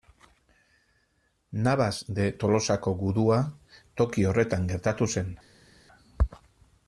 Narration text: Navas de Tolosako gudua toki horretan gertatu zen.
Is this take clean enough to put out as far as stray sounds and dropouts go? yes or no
yes